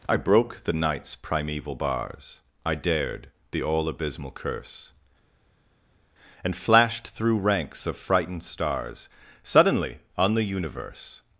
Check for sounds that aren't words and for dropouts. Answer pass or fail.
pass